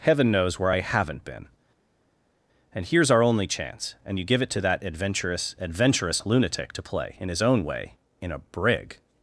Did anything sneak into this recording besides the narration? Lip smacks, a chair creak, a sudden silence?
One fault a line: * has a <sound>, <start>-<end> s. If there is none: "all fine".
all fine